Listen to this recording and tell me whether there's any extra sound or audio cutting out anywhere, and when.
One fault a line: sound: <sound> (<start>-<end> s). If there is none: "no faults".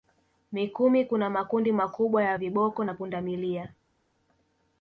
no faults